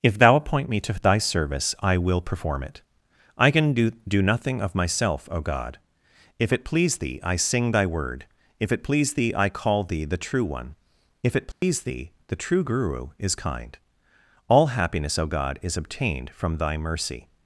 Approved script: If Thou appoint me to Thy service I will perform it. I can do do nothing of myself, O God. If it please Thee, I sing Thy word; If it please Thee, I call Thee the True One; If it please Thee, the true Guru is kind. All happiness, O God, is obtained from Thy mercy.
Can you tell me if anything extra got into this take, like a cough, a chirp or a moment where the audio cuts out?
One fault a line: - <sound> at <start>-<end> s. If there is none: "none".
- dropout at 11.5-11.6 s